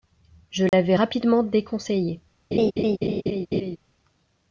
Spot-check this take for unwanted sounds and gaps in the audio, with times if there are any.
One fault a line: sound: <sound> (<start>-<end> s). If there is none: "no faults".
sound: dropout (0.7-0.7 s)
sound: laugh (2.5-3.8 s)